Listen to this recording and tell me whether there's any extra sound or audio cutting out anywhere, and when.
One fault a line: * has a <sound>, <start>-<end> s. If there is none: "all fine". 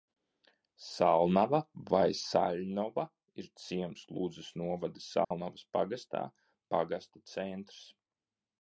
* has a dropout, 5.2-5.3 s